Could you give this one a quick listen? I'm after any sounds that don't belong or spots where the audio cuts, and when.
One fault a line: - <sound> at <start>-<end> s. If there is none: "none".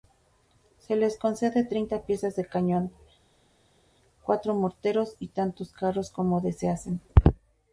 none